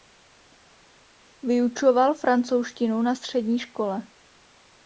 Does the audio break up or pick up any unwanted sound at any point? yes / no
no